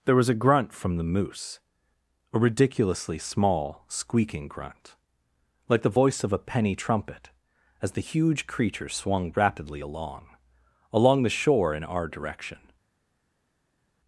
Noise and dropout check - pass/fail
pass